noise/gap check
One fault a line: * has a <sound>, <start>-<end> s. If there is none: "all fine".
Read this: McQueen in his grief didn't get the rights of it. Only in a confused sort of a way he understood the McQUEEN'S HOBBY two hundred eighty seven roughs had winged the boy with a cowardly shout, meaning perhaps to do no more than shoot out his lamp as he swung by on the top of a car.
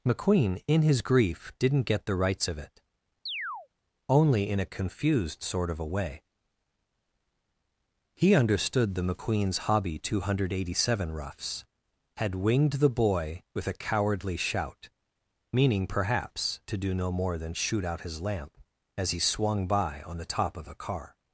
* has a chirp, 3.3-3.7 s